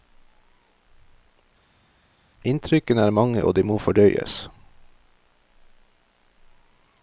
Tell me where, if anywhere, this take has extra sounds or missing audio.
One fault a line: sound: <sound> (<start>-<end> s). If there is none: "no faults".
no faults